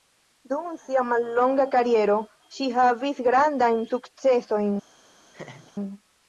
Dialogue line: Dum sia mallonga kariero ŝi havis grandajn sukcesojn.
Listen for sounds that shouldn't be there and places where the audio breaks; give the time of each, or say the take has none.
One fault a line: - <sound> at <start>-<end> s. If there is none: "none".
- laugh at 5.3-5.7 s